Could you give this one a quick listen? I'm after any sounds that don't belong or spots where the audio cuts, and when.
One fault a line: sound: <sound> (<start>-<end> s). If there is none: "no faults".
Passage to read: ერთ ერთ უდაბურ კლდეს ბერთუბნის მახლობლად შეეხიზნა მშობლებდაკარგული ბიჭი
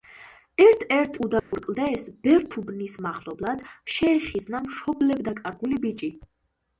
sound: dropout (1.4-1.5 s)